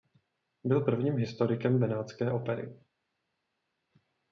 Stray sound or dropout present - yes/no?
no